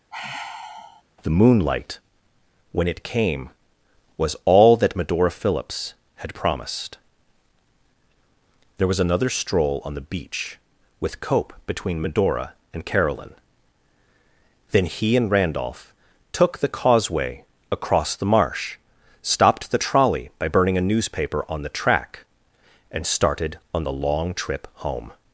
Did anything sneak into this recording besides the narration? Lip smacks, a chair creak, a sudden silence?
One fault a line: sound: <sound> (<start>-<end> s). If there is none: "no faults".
sound: sigh (0.1-1.0 s)